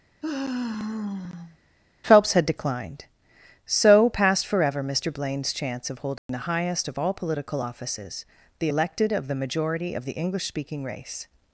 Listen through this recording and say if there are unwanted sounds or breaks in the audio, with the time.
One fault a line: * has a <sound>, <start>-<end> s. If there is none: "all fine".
* has a sigh, 0.2-1.6 s
* has a dropout, 6.2-6.3 s